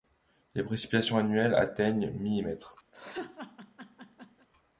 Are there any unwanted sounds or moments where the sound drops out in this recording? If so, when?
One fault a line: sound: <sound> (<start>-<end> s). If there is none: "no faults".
sound: laugh (2.9-4.5 s)